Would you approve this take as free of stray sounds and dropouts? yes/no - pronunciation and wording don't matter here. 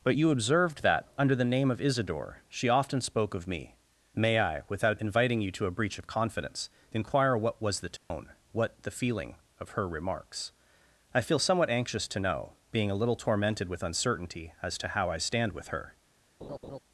no